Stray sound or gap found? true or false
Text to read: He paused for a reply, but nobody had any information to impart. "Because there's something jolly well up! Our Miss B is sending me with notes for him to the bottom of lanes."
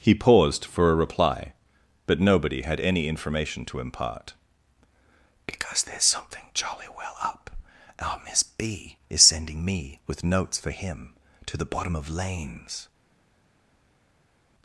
false